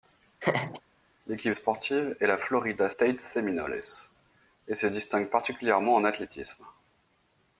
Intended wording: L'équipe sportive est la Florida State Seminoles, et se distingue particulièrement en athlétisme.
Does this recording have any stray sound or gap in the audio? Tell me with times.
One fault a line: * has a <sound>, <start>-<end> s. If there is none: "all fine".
* has a laugh, 0.4-0.8 s